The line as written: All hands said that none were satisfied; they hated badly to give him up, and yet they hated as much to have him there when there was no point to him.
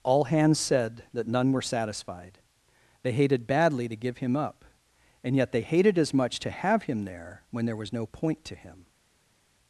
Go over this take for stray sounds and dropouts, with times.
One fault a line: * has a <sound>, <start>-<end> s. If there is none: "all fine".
all fine